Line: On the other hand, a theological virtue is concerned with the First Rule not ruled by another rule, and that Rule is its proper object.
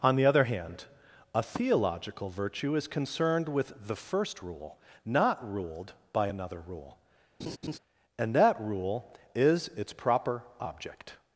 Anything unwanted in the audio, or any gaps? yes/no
yes